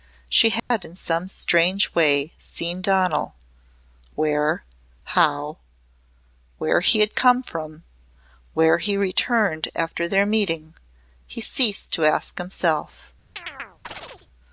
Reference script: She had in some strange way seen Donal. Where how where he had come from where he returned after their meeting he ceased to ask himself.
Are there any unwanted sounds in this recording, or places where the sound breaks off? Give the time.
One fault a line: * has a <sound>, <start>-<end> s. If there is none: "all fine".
* has a dropout, 0.6-0.7 s
* has a chirp, 13.4-14.3 s